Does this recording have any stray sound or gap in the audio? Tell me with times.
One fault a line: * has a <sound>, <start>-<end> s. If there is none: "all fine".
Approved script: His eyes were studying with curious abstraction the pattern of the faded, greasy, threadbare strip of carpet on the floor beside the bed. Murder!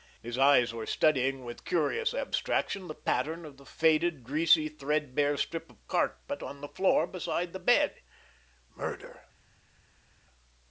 all fine